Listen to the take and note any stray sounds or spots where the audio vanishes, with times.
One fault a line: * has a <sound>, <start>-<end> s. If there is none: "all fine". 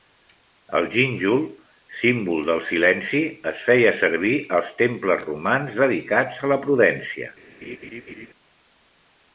* has a laugh, 7.6-8.3 s